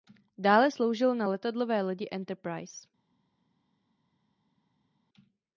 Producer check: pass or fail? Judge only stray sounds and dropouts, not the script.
pass